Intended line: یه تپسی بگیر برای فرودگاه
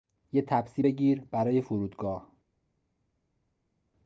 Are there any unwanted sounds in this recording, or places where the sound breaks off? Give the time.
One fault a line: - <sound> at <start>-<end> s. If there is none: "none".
none